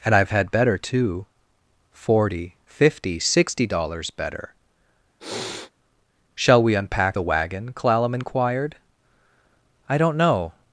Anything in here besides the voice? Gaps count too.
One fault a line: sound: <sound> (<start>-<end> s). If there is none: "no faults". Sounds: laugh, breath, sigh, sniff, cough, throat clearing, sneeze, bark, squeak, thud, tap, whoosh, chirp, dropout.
sound: sniff (5.2-5.7 s)